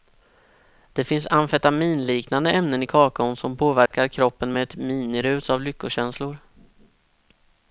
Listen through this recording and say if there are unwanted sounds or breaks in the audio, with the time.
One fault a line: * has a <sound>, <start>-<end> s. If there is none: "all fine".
* has a dropout, 3.9-3.9 s